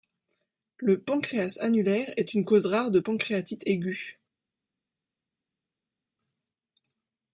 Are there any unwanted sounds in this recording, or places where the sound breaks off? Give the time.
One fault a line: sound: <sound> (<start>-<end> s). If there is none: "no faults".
no faults